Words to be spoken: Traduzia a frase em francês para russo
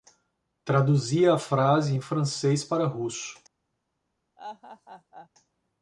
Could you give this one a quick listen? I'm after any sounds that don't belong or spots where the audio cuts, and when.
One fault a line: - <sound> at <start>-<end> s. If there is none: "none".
- laugh at 4.4-5.3 s